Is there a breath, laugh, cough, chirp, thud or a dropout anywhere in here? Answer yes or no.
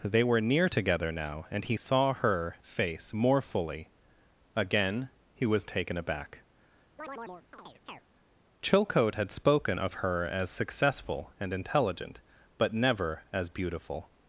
yes